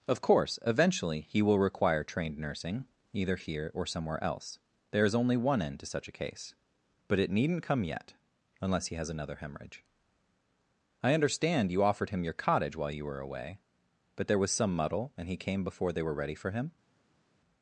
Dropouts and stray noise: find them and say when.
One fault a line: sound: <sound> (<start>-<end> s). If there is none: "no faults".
no faults